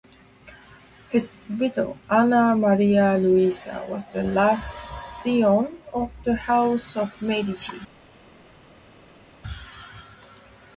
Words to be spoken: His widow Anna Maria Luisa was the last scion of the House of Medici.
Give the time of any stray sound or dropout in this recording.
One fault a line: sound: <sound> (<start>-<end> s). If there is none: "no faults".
no faults